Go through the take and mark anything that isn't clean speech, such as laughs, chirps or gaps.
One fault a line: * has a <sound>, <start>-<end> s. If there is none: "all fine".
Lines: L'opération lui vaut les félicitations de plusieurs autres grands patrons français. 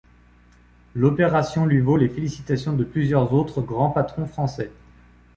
all fine